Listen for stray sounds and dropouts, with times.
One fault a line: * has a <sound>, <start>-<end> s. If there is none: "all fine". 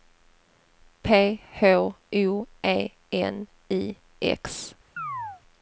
* has a chirp, 5.0-5.4 s